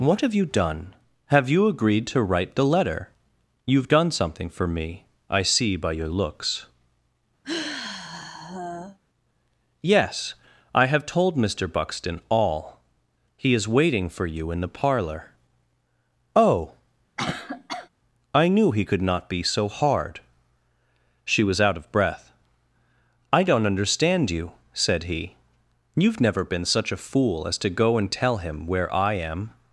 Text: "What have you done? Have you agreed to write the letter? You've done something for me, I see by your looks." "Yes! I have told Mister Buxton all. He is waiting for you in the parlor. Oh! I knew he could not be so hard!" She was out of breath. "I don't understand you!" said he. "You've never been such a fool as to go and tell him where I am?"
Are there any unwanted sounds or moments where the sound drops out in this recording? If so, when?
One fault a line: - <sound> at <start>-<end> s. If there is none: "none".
- sigh at 7.4-9.0 s
- cough at 17.2-17.9 s